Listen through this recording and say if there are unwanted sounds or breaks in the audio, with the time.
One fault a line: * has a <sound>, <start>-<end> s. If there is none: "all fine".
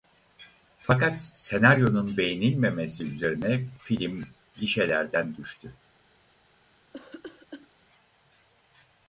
* has a cough, 6.9-7.7 s